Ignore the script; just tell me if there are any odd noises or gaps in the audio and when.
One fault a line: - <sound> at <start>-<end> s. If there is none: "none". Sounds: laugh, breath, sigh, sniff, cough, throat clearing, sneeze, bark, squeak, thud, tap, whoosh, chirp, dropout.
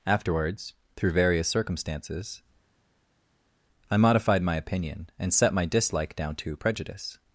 none